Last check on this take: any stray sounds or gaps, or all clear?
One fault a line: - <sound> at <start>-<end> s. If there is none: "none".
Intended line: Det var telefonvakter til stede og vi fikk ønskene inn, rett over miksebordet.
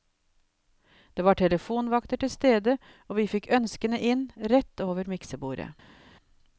none